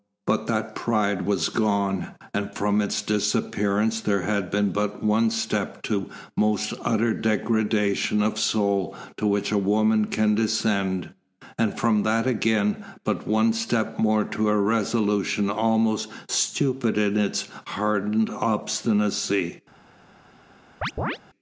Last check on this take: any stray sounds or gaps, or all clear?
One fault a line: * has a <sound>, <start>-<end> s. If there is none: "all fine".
* has a chirp, 20.8-21.2 s